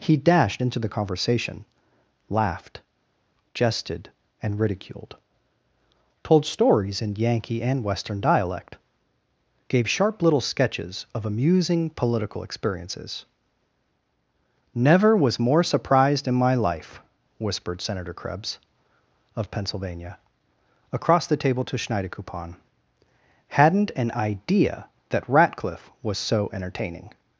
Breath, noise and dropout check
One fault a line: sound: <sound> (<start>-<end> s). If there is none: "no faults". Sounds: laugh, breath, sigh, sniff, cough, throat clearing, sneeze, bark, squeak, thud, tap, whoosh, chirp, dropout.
no faults